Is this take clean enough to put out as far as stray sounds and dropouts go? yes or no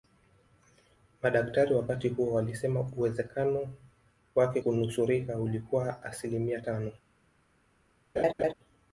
no